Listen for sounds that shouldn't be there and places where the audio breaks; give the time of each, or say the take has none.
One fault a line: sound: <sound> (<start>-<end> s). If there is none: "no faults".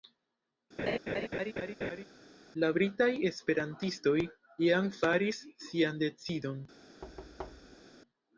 sound: laugh (0.8-2.0 s)
sound: thud (7.0-7.8 s)